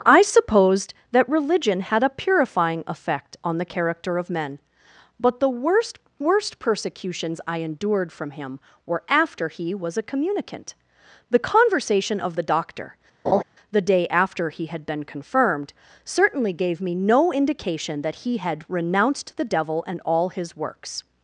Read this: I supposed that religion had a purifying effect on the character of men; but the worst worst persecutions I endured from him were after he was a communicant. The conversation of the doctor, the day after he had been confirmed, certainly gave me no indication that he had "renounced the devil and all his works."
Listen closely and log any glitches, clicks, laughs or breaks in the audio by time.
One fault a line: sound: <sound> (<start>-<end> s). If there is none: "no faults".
sound: laugh (13.2-13.4 s)